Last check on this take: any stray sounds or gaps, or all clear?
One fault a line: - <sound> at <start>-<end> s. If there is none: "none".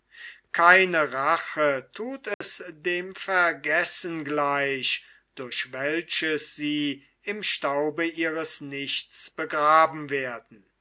- dropout at 2.3-2.4 s